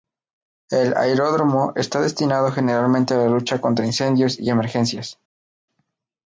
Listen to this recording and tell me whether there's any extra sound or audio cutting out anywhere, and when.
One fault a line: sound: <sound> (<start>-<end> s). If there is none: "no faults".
no faults